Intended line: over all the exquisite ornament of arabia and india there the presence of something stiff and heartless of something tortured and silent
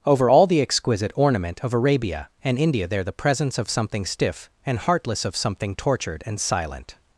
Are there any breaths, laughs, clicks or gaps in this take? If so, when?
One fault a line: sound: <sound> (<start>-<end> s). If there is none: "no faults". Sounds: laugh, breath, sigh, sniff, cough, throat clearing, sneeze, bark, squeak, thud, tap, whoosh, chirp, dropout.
no faults